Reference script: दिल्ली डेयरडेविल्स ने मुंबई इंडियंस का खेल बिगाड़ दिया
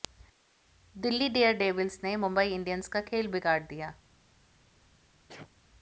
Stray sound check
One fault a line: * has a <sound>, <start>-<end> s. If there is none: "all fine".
* has a sneeze, 5.3-5.5 s